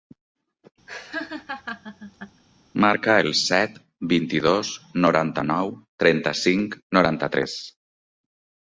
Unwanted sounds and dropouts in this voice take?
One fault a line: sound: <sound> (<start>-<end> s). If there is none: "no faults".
sound: laugh (0.9-2.4 s)